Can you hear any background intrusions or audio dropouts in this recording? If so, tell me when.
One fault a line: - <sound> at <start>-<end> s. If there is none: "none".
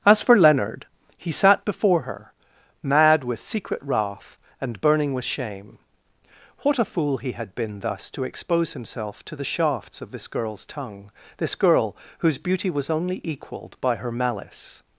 none